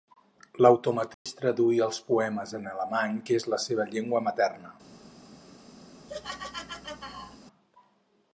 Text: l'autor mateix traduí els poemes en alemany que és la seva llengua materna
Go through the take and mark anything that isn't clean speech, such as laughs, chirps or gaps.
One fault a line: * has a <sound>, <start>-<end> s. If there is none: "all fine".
* has a dropout, 1.1-1.3 s
* has a laugh, 6.1-7.4 s